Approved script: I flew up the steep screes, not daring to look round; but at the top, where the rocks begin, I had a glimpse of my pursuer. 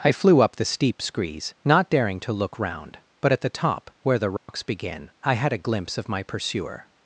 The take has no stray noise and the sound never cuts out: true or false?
false